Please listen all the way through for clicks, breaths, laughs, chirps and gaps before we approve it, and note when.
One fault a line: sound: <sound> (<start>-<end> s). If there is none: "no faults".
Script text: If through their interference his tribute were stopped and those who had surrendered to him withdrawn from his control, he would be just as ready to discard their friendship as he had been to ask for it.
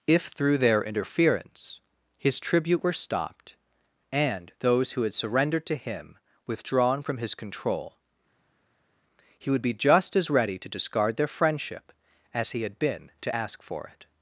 no faults